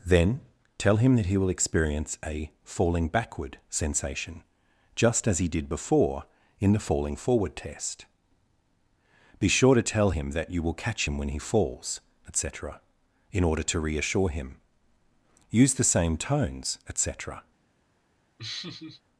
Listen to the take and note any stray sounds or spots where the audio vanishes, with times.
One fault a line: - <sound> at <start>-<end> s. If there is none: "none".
- laugh at 18.4-19.0 s